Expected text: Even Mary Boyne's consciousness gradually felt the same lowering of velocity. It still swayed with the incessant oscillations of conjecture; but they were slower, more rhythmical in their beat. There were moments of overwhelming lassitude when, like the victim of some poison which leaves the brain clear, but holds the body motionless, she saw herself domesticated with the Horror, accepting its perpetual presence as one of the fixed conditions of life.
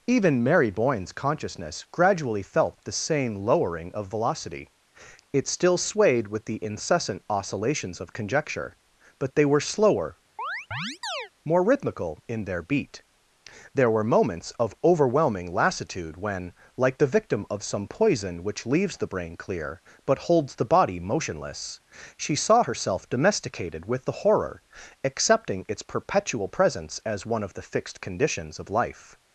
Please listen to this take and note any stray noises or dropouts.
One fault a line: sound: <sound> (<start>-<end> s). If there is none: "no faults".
sound: chirp (10.4-11.3 s)